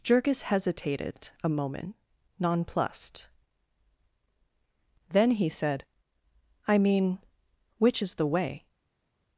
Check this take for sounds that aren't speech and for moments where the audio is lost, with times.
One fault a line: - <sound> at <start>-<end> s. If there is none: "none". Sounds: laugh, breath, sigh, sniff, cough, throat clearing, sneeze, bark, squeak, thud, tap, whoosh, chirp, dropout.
none